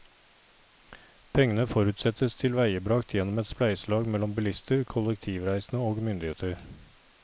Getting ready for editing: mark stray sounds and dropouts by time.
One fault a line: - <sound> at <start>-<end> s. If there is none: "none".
none